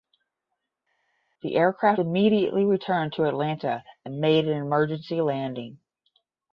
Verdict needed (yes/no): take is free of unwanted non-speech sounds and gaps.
yes